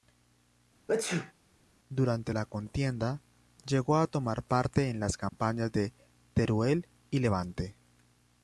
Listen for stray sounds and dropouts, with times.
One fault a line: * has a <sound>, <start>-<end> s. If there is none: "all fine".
* has a sneeze, 0.9-1.3 s
* has a dropout, 5.3-5.3 s